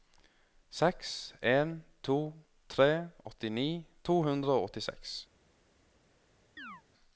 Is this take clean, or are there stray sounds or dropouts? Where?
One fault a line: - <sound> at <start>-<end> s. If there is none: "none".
- chirp at 6.6-6.8 s